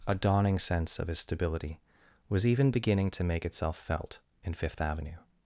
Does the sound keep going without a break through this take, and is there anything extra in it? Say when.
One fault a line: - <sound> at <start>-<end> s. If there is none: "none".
none